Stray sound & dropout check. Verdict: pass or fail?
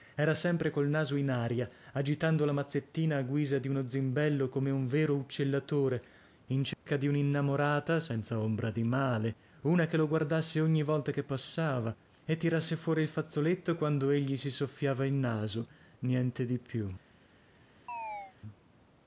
fail